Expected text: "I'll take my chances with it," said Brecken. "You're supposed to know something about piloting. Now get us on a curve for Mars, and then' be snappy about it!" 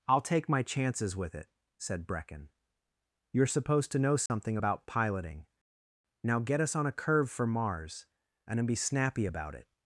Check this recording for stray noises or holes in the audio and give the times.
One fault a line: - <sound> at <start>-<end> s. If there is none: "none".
- dropout at 4.3-4.3 s